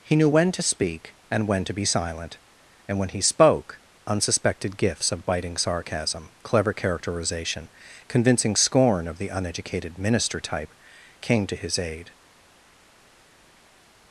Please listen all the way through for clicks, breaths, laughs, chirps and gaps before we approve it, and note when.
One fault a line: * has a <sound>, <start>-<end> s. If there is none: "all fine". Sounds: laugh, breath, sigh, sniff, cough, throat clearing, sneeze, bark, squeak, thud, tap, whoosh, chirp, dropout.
all fine